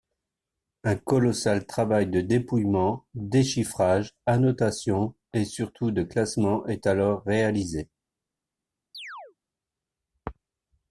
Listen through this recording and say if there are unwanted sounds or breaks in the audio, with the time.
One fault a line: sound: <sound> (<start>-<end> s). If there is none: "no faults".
sound: chirp (8.9-9.4 s)